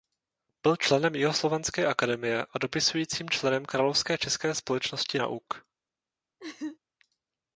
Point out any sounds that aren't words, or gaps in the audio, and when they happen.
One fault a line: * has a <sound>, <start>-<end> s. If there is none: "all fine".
* has a laugh, 6.4-6.8 s